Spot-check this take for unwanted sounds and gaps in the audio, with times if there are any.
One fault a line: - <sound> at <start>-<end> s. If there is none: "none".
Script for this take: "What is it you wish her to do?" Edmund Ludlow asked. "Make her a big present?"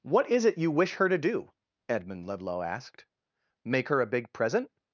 none